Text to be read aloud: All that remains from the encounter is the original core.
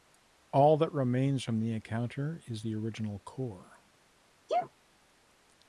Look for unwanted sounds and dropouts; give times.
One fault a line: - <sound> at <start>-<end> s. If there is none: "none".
- sneeze at 4.5-4.7 s